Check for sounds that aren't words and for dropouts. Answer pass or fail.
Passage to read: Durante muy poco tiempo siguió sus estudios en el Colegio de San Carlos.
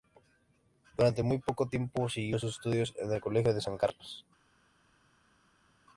pass